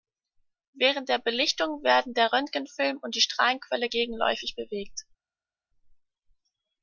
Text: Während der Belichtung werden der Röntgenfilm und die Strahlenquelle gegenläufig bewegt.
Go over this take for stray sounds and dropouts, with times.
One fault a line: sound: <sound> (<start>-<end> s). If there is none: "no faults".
no faults